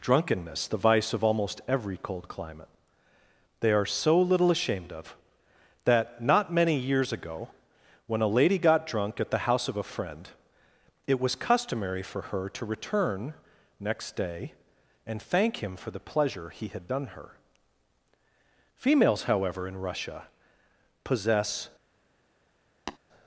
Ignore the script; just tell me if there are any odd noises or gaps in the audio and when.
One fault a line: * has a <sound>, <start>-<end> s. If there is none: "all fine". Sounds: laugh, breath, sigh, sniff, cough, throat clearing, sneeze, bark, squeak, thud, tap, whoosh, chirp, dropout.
* has a tap, 22.9-23.0 s